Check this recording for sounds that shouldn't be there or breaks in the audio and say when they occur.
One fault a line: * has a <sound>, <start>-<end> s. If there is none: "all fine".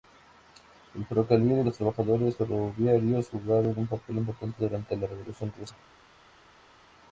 all fine